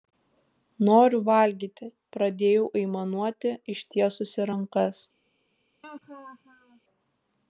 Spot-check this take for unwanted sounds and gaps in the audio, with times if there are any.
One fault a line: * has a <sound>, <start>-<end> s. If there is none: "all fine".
* has a laugh, 5.8-6.8 s